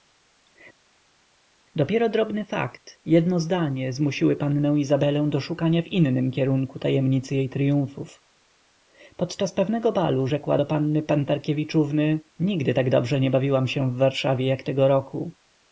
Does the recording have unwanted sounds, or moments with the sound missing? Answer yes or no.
no